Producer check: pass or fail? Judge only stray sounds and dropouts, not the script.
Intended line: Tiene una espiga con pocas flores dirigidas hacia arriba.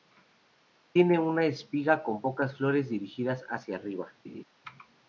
fail